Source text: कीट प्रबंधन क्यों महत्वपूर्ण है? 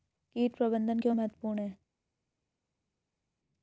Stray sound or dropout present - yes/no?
no